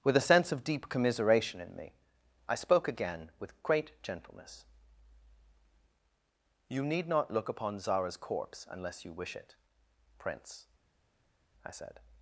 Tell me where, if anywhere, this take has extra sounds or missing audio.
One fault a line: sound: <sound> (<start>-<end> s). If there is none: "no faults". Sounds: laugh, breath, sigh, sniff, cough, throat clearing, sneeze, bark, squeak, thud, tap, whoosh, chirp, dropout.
no faults